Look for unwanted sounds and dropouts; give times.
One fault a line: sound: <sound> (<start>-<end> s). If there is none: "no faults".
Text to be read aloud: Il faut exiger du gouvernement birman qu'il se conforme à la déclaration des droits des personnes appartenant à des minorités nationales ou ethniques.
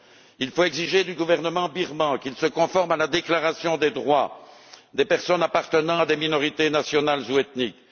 no faults